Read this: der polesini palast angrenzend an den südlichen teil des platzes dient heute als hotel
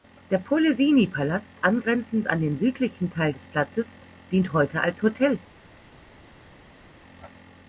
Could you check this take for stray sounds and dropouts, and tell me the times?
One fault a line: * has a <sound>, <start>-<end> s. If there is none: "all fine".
all fine